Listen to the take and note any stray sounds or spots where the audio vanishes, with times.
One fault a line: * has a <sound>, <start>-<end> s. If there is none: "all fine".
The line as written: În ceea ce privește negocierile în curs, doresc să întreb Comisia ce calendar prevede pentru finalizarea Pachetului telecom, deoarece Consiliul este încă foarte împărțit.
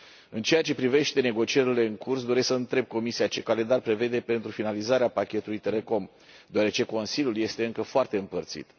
all fine